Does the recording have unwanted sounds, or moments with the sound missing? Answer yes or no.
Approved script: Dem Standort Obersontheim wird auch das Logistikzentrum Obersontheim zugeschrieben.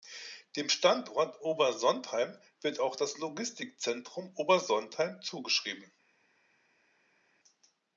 no